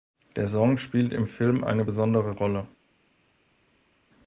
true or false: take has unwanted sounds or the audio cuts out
false